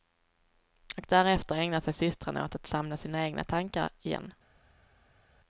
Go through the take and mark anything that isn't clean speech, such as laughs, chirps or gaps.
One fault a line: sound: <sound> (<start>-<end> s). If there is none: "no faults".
no faults